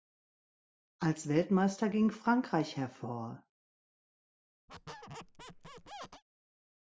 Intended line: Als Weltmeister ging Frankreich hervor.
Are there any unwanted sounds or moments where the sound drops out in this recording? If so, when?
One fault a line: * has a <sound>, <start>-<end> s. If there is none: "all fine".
* has a squeak, 4.7-6.2 s